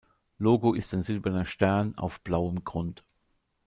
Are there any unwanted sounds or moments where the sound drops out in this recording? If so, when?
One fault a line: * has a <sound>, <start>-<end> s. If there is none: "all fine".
all fine